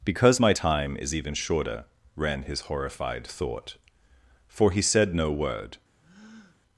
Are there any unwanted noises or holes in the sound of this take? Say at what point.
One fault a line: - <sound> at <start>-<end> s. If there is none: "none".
- breath at 6.0-6.6 s